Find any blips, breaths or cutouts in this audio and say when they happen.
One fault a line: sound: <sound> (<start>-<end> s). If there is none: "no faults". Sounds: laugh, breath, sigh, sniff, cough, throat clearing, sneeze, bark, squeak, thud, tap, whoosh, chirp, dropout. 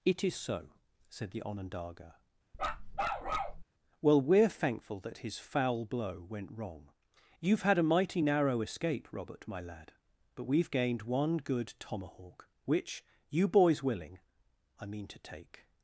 sound: bark (2.5-3.6 s)